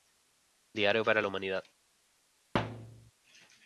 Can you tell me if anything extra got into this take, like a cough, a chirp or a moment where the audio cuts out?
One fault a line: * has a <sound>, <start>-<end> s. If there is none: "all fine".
* has a thud, 2.5-3.1 s